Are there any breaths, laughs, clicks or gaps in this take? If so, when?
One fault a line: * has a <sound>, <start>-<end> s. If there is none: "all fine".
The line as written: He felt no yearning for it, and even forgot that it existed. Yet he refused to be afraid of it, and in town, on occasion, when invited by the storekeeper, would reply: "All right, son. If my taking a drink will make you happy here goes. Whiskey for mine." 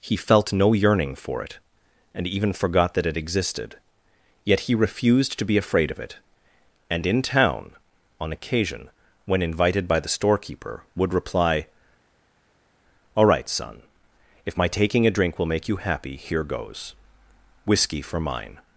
all fine